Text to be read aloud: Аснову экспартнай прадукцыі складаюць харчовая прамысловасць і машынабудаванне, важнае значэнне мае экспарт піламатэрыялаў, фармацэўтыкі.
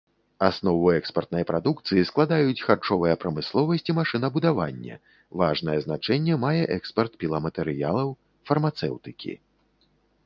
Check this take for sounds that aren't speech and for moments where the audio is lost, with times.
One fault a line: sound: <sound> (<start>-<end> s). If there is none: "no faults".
no faults